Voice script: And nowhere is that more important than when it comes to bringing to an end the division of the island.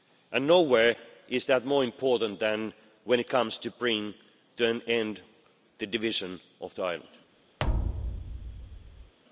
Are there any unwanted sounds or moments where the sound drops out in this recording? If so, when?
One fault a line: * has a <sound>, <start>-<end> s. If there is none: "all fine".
* has a thud, 7.6-9.1 s